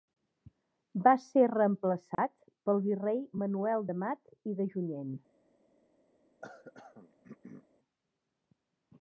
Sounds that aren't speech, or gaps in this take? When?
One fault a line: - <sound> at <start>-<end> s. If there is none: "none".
- dropout at 2.1-2.2 s
- throat clearing at 6.4-7.7 s